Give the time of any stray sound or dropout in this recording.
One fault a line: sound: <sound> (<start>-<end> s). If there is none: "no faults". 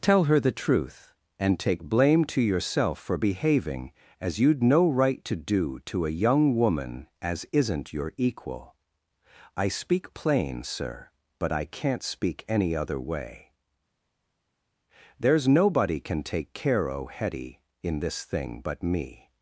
no faults